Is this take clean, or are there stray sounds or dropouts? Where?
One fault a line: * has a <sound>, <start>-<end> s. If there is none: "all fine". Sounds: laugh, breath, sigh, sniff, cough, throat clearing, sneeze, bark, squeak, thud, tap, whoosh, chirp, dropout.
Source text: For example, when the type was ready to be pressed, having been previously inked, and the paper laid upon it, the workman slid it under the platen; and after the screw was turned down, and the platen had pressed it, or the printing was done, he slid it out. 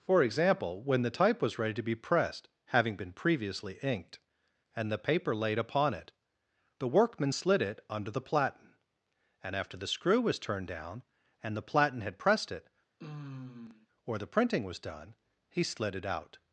* has a sigh, 13.0-13.9 s